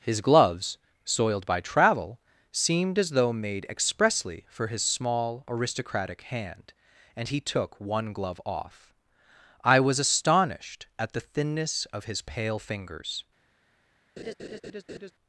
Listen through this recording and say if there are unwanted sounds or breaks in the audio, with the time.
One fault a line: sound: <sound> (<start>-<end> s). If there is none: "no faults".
sound: laugh (14.2-15.1 s)